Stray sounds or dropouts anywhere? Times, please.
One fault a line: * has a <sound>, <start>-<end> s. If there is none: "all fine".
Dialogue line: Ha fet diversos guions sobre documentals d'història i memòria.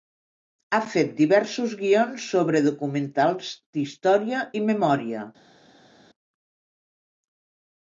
all fine